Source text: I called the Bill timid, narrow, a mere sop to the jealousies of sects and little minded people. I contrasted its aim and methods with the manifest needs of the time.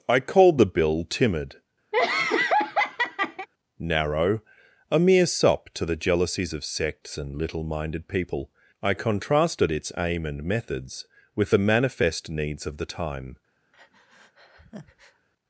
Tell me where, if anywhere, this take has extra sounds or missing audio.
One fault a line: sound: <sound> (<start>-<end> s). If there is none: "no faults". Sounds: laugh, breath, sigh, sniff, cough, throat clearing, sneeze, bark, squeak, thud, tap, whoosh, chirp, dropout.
sound: laugh (1.9-3.5 s)
sound: breath (13.7-15.3 s)